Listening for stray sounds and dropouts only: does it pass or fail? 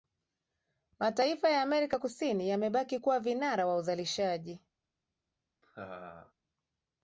fail